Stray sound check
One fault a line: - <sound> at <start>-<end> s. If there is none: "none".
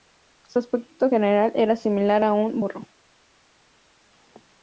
none